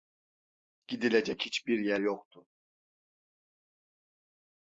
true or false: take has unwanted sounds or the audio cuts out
false